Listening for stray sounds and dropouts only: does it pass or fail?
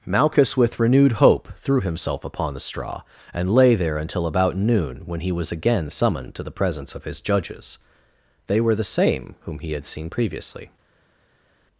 pass